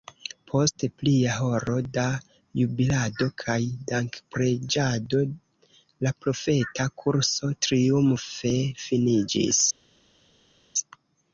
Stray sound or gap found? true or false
false